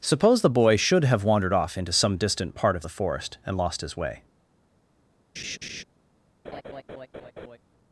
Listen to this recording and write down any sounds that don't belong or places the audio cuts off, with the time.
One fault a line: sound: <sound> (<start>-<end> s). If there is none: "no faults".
sound: laugh (5.4-5.8 s)
sound: laugh (6.4-7.6 s)